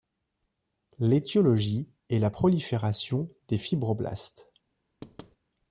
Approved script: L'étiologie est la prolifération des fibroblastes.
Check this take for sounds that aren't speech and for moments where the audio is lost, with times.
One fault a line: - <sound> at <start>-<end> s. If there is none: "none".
- thud at 5.0-5.4 s